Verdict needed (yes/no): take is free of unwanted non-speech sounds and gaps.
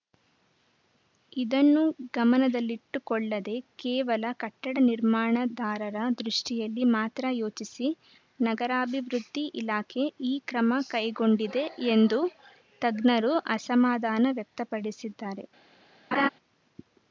no